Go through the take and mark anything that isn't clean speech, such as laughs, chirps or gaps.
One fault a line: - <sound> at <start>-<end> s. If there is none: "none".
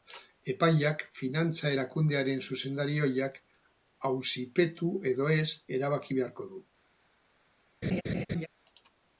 - laugh at 7.8-8.5 s